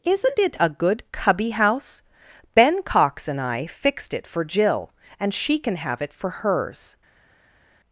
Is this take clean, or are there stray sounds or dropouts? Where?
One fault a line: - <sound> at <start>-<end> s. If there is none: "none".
none